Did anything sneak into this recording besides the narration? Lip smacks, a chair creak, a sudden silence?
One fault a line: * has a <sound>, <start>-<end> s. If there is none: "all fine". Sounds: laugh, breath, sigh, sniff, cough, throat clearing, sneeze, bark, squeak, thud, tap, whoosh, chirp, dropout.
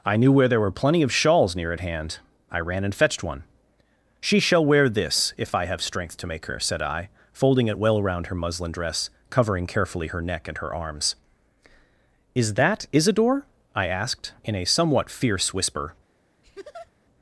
* has a laugh, 16.4-16.9 s